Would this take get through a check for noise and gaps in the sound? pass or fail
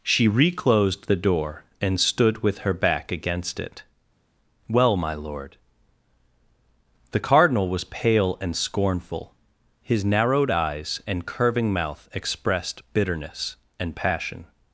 pass